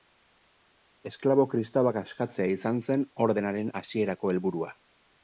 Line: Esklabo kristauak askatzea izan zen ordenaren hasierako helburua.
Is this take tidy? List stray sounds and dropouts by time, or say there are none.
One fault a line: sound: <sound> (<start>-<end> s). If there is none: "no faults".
no faults